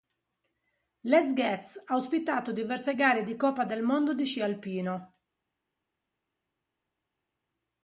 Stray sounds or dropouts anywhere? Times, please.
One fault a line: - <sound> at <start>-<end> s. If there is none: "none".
none